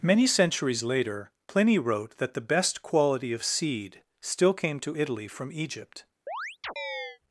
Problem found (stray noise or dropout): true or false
true